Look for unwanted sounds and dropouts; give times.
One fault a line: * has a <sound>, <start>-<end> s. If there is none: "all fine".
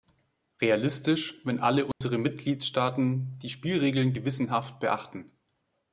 * has a dropout, 1.9-2.0 s